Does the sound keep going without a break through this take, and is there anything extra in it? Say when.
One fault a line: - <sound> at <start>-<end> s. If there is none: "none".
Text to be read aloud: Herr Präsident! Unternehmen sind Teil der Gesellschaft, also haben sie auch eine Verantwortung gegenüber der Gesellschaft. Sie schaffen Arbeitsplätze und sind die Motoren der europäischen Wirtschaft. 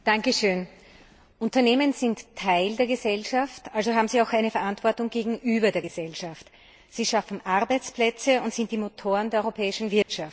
- dropout at 10.0-10.1 s